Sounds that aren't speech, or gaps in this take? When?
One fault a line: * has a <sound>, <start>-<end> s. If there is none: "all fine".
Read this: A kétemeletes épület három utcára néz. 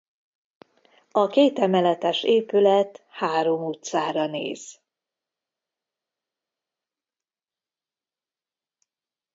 all fine